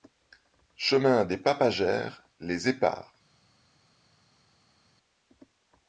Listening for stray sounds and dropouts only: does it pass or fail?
pass